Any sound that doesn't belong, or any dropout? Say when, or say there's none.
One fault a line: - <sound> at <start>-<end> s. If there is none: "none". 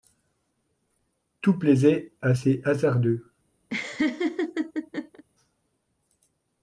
- laugh at 3.7-5.2 s